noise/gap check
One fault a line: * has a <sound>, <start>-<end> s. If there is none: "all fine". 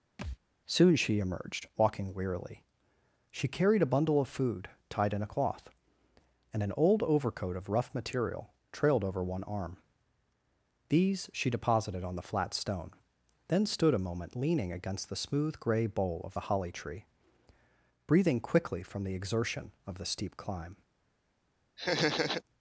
* has a thud, 0.2-0.4 s
* has a laugh, 21.8-22.4 s